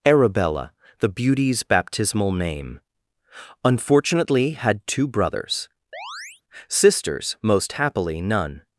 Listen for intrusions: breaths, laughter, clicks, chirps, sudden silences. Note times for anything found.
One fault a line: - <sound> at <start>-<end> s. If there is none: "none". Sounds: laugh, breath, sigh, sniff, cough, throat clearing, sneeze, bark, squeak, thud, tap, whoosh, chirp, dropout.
- chirp at 5.9-6.4 s